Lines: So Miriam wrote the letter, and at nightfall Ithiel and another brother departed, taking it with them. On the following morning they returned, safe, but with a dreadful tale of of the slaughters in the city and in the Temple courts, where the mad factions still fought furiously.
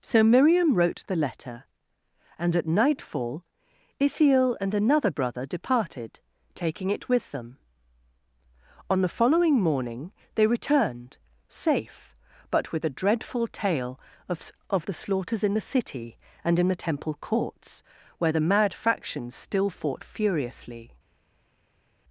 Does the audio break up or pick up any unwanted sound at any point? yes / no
no